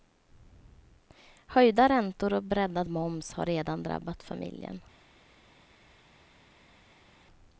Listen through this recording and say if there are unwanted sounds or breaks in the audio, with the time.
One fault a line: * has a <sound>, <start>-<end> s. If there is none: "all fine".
all fine